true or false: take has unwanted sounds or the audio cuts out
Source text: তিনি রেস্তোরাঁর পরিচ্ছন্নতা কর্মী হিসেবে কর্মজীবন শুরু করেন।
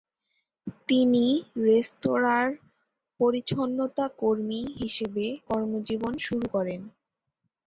false